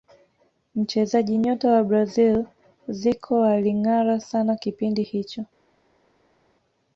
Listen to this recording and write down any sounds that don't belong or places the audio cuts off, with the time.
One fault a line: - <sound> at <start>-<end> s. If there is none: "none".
none